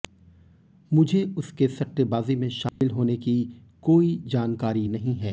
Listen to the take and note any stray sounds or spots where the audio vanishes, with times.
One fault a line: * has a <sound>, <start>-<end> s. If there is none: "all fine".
* has a dropout, 2.7-2.8 s